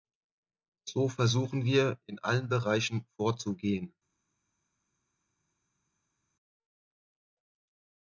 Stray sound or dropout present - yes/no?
no